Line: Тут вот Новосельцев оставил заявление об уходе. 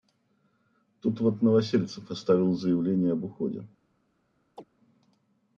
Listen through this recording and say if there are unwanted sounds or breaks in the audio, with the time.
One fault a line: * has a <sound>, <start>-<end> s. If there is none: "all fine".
* has a chirp, 4.6-4.6 s